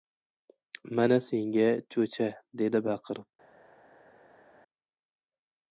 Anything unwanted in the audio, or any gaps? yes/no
no